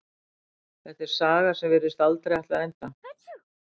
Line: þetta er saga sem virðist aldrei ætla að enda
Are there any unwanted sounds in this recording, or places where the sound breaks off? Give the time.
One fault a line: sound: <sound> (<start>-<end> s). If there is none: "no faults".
sound: sneeze (3.0-3.4 s)